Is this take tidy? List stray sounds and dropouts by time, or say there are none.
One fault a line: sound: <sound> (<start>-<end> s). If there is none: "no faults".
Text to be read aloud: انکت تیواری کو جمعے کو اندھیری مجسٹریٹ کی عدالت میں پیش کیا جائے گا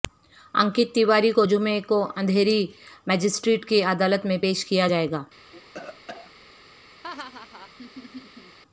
sound: cough (5.5-6.3 s)
sound: laugh (7.0-8.6 s)